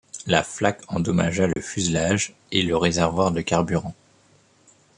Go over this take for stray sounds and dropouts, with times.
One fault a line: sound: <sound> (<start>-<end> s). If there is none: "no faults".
sound: dropout (1.5-1.6 s)